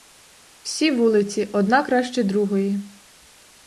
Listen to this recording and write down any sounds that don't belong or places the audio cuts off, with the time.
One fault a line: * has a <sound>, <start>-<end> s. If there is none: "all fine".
all fine